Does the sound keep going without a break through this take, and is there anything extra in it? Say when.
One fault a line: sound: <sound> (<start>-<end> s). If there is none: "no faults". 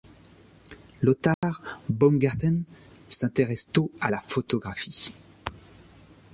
sound: dropout (1.3-1.4 s)